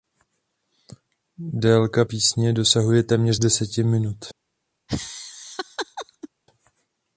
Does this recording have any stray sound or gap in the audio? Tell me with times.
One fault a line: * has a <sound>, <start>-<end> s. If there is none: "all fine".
* has a laugh, 4.9-6.3 s